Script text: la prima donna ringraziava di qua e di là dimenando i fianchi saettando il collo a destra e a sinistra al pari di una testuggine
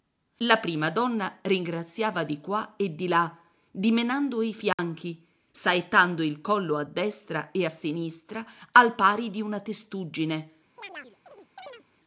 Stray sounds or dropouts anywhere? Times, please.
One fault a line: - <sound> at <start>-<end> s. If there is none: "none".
- dropout at 4.7-4.8 s
- chirp at 10.8-11.8 s